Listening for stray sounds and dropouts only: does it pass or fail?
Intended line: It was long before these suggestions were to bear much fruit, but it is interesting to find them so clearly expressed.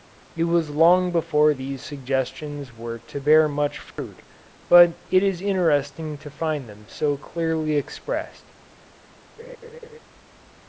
fail